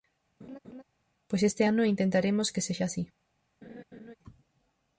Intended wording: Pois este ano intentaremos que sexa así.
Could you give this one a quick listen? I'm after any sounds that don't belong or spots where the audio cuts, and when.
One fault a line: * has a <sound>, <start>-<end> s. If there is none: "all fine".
* has a laugh, 0.4-0.8 s
* has a laugh, 3.6-4.2 s